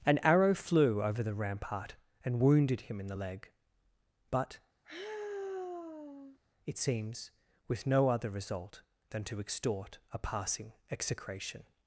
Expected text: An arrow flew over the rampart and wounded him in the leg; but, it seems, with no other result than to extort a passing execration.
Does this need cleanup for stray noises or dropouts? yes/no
yes